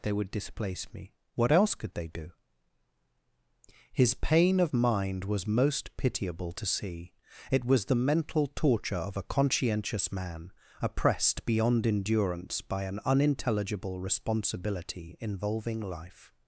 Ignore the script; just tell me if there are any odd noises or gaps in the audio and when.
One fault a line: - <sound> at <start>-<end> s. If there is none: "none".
none